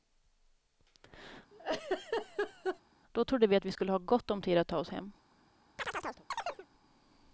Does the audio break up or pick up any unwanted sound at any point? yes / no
yes